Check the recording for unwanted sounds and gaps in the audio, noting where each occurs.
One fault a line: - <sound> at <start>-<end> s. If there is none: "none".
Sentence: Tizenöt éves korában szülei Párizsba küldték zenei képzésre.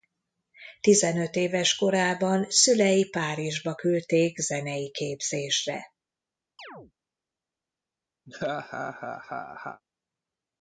- chirp at 6.6-6.9 s
- laugh at 8.3-9.8 s